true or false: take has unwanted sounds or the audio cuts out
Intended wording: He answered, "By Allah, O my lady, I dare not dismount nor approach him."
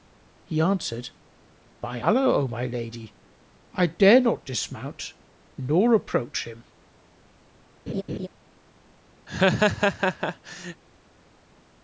true